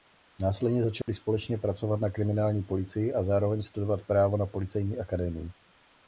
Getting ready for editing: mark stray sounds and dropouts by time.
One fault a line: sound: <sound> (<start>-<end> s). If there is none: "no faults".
sound: dropout (1.0-1.1 s)